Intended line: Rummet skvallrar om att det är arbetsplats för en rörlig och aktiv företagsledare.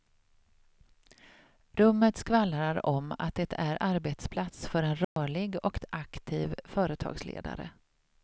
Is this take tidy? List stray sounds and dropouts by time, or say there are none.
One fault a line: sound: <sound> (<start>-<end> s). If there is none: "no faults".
sound: dropout (5.0-5.2 s)